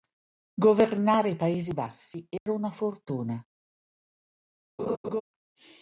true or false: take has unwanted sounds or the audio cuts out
true